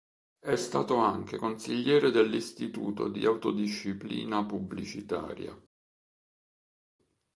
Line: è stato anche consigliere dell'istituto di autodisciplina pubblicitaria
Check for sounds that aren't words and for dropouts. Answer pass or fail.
pass